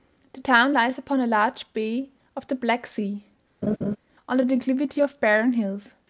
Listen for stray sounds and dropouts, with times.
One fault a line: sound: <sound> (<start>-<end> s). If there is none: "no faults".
sound: laugh (3.6-4.0 s)